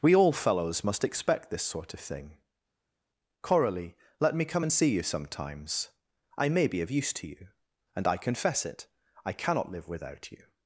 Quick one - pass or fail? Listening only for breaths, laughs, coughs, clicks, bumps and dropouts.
pass